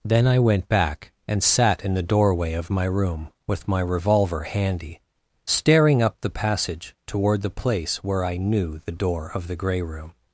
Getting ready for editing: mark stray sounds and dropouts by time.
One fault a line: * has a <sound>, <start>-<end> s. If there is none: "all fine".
all fine